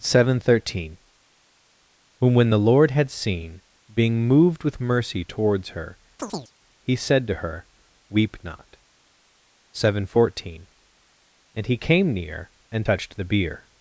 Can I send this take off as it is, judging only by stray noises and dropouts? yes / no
no